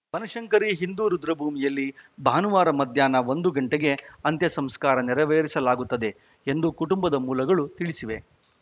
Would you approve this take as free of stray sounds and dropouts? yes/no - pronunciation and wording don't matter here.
yes